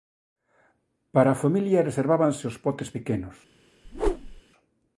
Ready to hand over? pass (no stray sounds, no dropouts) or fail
fail